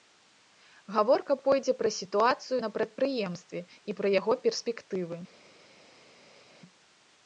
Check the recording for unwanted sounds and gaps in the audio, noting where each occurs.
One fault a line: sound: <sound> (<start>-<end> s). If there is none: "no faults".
no faults